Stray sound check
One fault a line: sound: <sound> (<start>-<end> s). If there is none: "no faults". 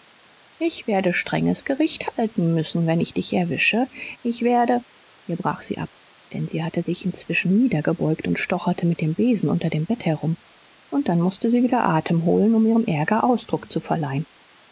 no faults